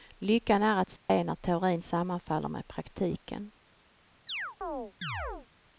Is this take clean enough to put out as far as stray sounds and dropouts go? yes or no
no